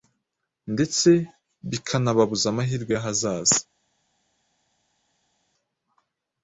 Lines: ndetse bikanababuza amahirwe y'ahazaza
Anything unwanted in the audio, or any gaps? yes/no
no